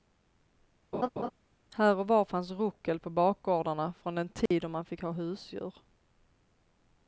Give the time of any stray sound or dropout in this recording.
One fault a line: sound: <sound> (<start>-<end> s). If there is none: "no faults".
sound: laugh (0.9-1.3 s)
sound: dropout (4.5-4.5 s)